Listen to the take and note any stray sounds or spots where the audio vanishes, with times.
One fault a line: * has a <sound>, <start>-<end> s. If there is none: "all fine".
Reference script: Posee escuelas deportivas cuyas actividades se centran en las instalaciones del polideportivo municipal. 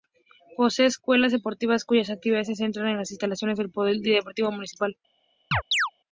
* has a chirp, 5.5-5.9 s